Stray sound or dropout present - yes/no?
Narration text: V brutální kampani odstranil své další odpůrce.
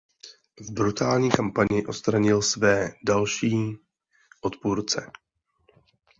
no